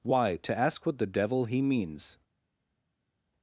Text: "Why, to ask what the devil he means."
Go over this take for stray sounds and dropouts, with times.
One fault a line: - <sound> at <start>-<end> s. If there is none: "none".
none